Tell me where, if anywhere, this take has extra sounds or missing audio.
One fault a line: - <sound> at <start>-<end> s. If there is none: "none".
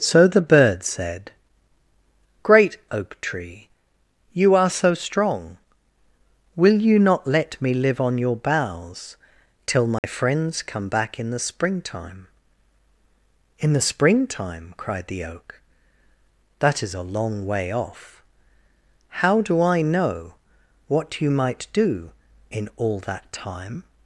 - dropout at 10.0-10.0 s